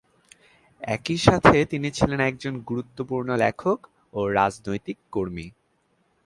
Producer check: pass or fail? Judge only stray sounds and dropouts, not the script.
pass